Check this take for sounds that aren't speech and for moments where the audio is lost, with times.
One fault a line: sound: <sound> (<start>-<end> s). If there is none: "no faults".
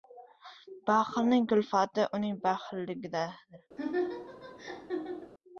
sound: laugh (3.8-5.3 s)